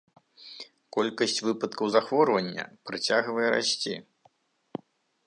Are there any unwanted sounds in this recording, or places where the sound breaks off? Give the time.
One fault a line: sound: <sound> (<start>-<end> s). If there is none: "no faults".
no faults